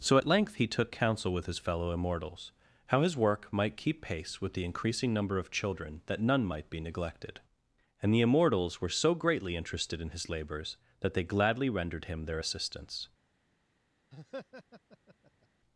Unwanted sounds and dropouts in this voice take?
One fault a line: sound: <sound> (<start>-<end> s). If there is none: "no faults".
sound: laugh (14.1-15.5 s)